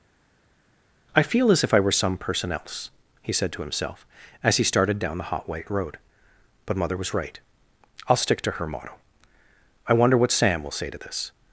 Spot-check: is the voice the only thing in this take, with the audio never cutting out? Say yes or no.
yes